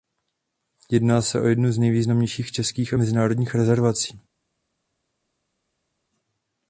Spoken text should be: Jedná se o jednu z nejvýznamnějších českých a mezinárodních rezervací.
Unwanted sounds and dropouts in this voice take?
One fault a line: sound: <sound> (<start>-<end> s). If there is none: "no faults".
no faults